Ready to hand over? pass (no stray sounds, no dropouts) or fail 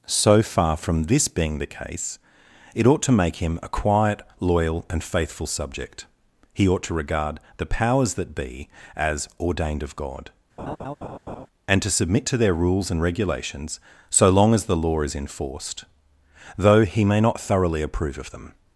fail